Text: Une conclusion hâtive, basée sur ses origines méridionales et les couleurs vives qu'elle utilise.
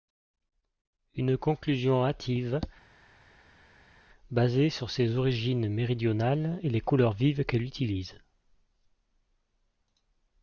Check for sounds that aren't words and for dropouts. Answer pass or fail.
pass